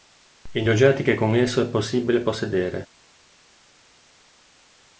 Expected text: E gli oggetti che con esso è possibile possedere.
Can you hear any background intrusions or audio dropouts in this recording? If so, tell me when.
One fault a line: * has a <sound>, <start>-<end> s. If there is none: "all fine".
all fine